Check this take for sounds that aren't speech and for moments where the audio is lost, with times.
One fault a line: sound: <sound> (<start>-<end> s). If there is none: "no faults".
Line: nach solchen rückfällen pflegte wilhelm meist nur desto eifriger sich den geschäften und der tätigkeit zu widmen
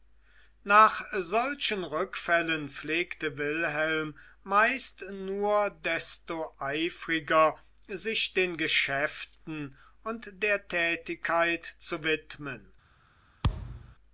sound: thud (13.4-14.0 s)